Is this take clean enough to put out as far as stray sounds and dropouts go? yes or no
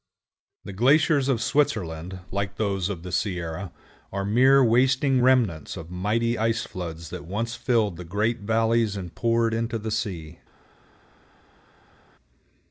yes